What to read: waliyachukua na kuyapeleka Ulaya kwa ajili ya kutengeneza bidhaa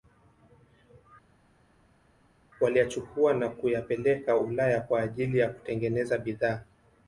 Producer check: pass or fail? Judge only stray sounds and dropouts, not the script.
pass